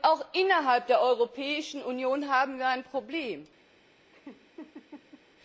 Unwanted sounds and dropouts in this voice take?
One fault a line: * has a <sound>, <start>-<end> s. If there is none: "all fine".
* has a laugh, 4.1-5.2 s